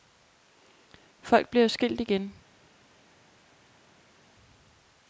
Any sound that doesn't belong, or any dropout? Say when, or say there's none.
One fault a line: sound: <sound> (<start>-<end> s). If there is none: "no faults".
no faults